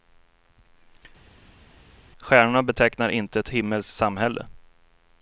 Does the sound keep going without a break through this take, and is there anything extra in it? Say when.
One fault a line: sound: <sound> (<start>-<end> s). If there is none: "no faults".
no faults